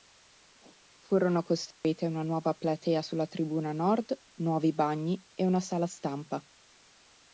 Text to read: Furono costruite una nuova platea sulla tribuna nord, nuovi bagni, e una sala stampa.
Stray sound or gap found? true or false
true